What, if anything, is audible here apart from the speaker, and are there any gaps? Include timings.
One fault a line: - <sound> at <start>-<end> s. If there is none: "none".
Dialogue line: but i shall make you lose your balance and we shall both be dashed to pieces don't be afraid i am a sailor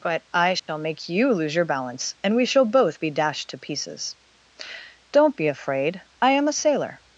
- dropout at 0.6-0.7 s